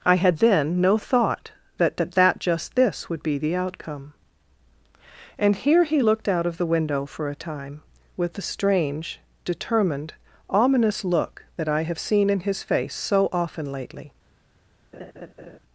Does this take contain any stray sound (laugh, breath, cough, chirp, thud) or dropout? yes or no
yes